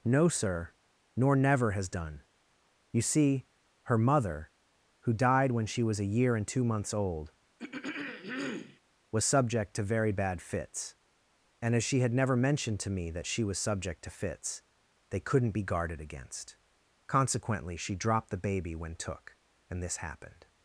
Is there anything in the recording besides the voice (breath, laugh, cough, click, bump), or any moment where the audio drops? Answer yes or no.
yes